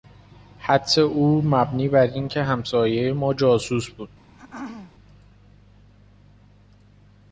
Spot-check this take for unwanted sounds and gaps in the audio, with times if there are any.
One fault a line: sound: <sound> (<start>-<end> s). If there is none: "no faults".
sound: throat clearing (4.3-4.9 s)